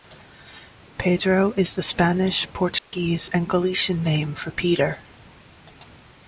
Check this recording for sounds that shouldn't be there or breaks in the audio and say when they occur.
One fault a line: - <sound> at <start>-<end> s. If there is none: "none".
- dropout at 2.8-2.9 s